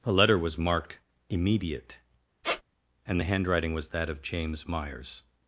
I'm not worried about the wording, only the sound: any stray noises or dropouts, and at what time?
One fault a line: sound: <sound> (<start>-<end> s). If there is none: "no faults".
sound: squeak (2.4-2.6 s)